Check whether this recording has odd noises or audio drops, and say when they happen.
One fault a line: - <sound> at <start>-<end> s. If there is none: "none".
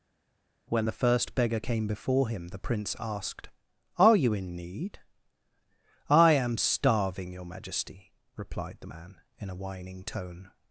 none